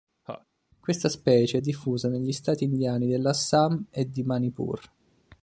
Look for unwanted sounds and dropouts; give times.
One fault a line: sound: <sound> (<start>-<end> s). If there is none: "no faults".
sound: laugh (0.3-0.5 s)